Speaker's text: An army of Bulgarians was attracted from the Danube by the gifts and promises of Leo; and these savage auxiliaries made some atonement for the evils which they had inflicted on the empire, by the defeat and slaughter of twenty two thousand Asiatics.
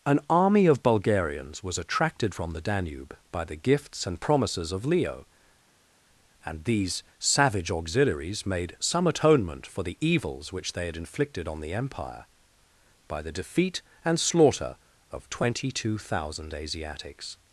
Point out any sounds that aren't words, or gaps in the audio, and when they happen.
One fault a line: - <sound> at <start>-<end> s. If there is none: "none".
none